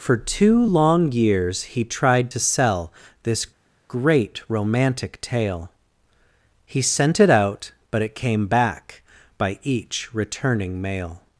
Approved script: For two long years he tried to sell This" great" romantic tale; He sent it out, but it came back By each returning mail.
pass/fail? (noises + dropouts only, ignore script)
pass